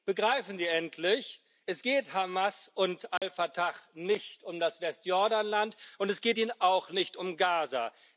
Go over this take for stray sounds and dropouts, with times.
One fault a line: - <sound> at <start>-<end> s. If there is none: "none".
- dropout at 3.2-3.2 s